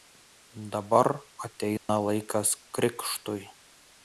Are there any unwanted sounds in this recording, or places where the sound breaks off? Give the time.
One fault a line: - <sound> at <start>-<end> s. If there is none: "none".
- dropout at 1.8-1.9 s